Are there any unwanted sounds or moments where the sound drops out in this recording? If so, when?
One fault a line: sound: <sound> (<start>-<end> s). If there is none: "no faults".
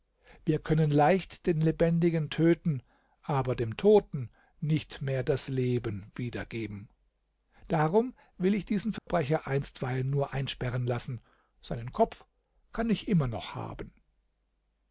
sound: dropout (9.0-9.1 s)